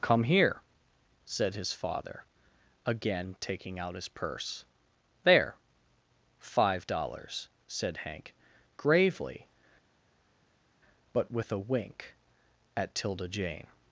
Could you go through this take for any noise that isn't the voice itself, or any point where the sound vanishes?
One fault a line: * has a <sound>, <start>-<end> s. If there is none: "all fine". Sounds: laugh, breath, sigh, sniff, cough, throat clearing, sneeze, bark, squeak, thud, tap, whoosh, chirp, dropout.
all fine